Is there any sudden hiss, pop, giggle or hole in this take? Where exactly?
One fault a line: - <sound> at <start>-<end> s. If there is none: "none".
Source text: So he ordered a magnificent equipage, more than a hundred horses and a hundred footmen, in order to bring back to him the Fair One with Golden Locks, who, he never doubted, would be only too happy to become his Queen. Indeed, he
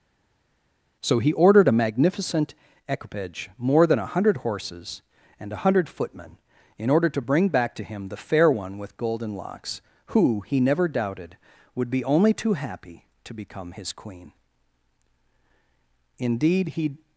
none